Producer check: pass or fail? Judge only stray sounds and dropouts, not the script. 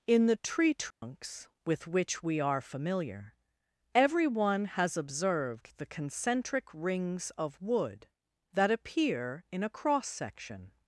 fail